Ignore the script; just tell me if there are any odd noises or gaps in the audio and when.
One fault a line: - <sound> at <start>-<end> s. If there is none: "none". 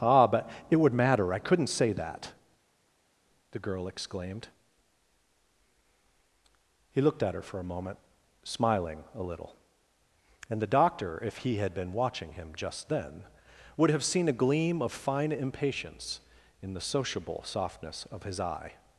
none